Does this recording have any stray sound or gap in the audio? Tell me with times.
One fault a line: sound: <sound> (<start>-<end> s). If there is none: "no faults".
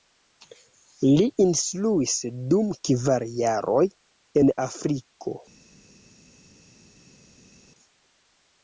no faults